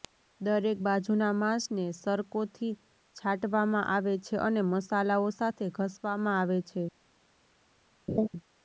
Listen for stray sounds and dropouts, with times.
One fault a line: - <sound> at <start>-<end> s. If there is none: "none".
- laugh at 8.1-8.3 s